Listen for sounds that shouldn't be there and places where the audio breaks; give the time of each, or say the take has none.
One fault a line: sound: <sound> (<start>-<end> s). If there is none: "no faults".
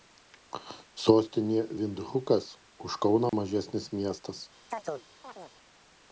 sound: dropout (3.3-3.3 s)
sound: chirp (4.7-5.6 s)